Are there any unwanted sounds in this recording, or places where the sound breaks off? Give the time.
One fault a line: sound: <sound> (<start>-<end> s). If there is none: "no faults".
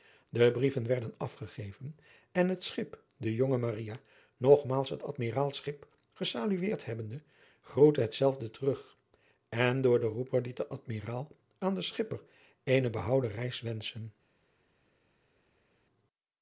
no faults